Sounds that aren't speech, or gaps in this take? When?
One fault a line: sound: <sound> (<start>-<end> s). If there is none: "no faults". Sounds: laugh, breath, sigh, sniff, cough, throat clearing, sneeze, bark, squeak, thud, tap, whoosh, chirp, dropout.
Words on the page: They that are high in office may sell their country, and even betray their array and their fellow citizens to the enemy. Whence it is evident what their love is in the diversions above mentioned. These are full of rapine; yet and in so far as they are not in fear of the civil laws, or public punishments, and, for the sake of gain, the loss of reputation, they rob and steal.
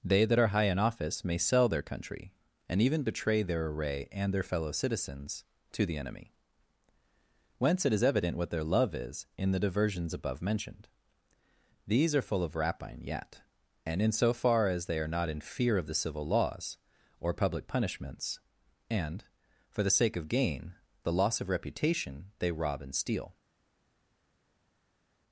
no faults